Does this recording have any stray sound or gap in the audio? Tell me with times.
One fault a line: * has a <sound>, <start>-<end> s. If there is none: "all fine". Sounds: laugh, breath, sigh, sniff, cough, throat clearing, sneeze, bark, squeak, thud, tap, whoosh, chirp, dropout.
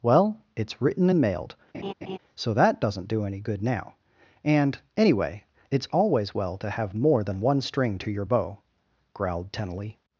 * has a laugh, 1.7-2.2 s